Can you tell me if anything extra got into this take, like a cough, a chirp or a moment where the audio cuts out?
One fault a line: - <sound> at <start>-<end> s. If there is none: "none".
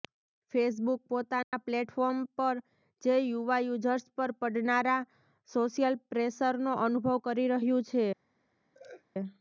- dropout at 1.4-1.5 s
- laugh at 8.7-9.0 s